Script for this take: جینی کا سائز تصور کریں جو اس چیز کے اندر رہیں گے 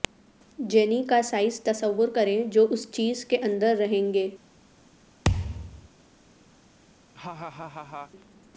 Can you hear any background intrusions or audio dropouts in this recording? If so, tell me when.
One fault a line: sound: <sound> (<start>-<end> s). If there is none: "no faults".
sound: thud (5.2-5.9 s)
sound: laugh (7.1-8.1 s)